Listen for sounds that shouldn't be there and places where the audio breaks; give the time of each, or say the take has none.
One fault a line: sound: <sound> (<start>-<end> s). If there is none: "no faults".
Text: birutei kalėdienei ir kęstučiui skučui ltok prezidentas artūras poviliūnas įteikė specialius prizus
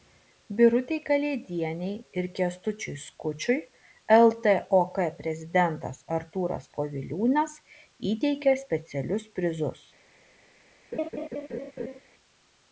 sound: laugh (10.9-12.0 s)